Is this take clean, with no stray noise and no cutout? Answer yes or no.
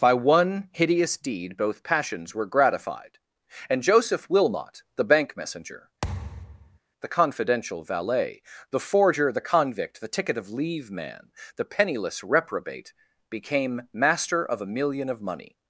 no